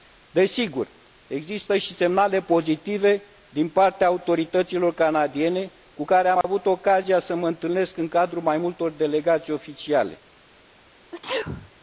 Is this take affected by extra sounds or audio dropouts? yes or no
yes